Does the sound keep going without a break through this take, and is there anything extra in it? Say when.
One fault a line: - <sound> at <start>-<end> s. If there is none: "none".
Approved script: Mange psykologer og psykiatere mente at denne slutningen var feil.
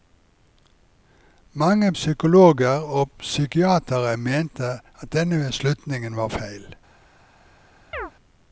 - chirp at 7.9-8.1 s